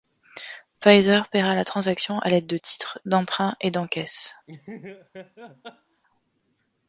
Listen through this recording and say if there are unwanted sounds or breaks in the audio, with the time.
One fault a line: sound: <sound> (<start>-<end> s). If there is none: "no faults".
sound: laugh (4.5-6.0 s)